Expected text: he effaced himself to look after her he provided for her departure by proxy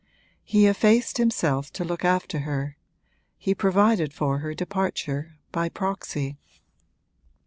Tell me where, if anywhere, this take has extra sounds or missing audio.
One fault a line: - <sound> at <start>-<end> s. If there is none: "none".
none